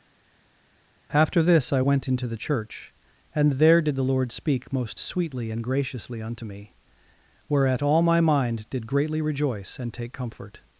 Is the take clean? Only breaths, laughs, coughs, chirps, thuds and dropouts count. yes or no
yes